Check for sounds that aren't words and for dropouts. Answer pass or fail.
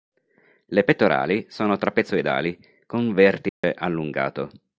fail